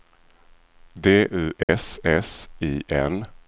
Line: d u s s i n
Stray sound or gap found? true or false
true